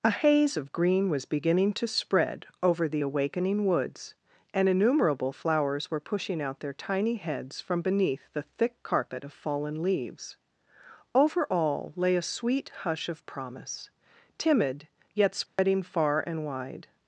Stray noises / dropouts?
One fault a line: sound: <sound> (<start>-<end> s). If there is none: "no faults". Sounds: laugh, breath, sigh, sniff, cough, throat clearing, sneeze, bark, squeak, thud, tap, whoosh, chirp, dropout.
sound: dropout (15.5-15.6 s)